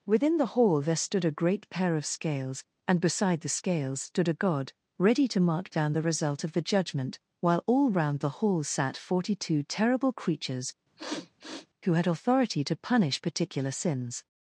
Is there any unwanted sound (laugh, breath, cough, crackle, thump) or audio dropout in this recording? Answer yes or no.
yes